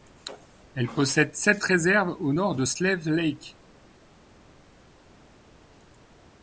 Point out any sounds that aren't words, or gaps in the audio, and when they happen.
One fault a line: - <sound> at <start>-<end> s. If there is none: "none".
none